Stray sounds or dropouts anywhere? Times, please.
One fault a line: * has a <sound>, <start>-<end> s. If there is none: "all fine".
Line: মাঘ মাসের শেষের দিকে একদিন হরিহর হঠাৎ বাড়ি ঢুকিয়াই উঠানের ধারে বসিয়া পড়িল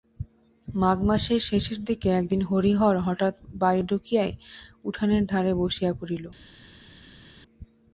all fine